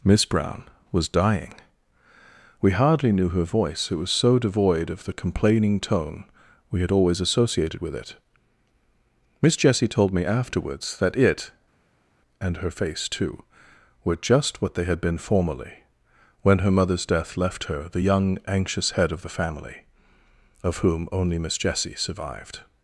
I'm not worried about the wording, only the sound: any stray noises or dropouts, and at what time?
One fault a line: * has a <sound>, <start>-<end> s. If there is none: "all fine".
all fine